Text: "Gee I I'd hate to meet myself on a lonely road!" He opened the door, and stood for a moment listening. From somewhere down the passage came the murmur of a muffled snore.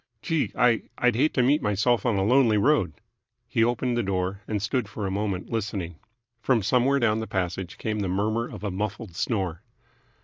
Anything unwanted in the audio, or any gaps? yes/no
no